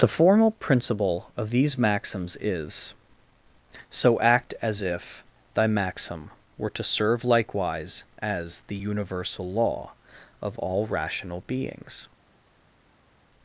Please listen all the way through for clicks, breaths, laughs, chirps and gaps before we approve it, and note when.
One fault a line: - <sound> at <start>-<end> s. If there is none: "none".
none